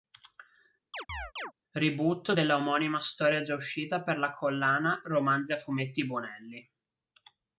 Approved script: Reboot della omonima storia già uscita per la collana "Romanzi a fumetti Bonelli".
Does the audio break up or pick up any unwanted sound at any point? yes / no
yes